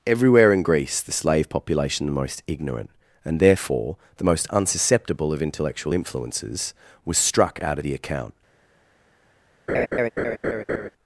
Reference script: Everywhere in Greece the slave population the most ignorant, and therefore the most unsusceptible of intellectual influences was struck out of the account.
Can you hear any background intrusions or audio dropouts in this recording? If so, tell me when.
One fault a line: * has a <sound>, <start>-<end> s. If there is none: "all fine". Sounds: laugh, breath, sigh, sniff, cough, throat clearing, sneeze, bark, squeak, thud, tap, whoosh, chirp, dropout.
* has a laugh, 9.7-10.9 s